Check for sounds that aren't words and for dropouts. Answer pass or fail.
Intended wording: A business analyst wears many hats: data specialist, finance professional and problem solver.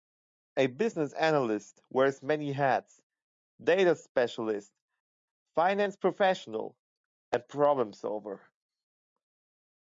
pass